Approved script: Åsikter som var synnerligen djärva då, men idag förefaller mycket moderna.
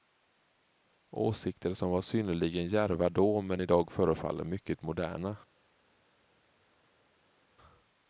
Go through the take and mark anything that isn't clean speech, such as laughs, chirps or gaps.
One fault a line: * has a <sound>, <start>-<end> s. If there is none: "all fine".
all fine